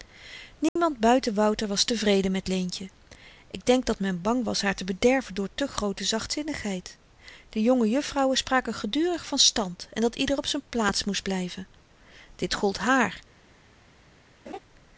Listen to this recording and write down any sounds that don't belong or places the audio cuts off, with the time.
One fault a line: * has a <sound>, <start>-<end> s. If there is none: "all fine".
* has a dropout, 0.7-0.8 s
* has a laugh, 14.5-14.6 s